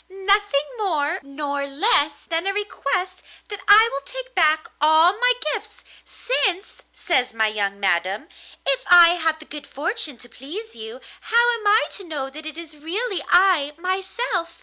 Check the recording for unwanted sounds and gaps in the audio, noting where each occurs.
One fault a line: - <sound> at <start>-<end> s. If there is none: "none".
none